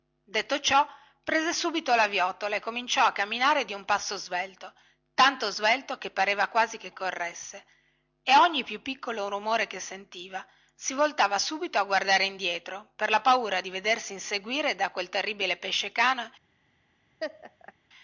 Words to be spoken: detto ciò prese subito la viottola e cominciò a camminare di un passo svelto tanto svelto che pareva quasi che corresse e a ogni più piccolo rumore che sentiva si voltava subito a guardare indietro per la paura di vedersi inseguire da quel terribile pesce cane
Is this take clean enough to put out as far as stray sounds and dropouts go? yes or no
no